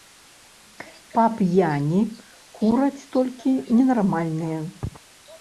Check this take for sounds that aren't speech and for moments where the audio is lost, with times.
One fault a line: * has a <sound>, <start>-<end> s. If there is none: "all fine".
all fine